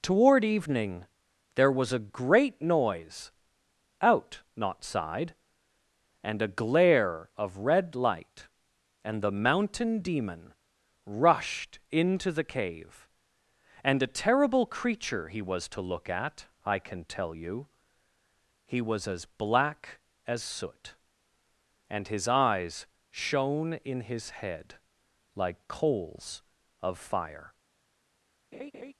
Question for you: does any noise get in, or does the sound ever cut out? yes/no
yes